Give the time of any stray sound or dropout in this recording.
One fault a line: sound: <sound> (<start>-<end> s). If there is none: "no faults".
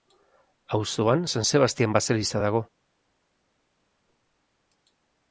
no faults